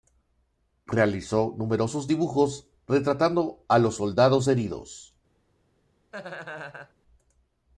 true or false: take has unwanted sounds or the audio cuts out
true